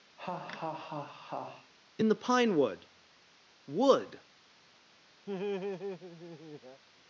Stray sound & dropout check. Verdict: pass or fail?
fail